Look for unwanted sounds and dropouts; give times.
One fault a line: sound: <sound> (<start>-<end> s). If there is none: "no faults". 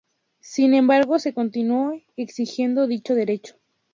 no faults